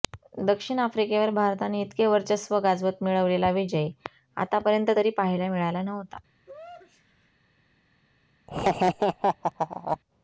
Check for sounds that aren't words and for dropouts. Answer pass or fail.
fail